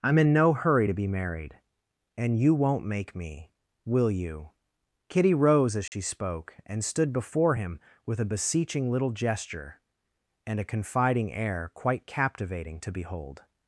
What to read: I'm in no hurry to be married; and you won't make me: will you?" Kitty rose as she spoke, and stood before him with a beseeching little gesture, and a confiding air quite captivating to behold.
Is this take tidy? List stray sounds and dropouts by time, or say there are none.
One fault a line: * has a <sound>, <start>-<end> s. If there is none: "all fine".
* has a dropout, 5.9-5.9 s